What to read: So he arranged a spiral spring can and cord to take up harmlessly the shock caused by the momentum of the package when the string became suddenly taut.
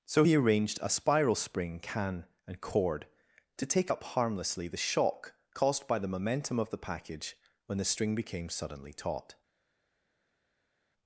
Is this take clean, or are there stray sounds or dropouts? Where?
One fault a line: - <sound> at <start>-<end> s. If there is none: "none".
none